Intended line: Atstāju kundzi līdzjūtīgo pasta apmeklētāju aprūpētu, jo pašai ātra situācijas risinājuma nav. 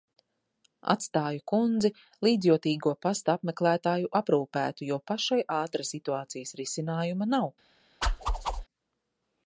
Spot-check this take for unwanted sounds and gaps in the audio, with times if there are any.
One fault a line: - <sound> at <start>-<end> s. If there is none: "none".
- whoosh at 8.0-8.7 s